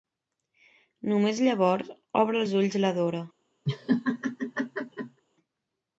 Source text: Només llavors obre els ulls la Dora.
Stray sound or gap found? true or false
true